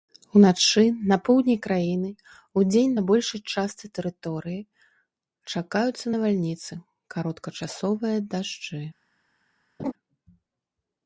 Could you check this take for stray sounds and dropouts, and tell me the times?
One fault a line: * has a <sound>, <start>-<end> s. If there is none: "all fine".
* has a laugh, 9.8-9.9 s